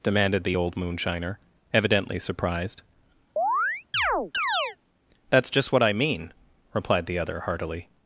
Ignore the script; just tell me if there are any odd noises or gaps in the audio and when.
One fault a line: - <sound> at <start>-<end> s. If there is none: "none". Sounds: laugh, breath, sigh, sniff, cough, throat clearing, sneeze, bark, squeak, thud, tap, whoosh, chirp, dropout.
- chirp at 3.4-4.8 s